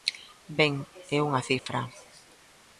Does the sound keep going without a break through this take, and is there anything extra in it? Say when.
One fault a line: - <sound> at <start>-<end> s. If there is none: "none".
- dropout at 1.6-1.7 s